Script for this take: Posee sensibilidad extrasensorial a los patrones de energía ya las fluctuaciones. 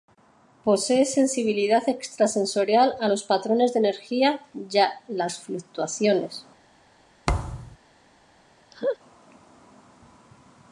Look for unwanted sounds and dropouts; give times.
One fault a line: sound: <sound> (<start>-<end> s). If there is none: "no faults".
sound: thud (7.3-7.8 s)
sound: laugh (8.7-9.0 s)